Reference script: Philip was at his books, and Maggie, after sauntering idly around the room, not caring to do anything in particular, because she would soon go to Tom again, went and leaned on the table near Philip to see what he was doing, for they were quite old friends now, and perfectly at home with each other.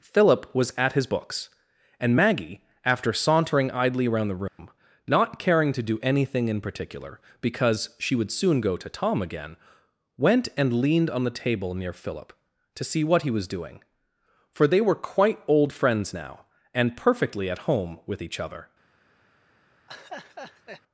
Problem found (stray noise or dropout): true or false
true